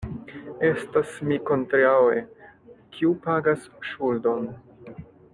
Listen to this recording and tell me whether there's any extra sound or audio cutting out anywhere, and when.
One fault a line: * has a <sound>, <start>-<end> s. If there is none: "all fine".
all fine